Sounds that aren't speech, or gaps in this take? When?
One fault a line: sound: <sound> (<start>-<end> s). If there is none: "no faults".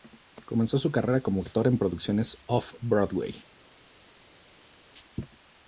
no faults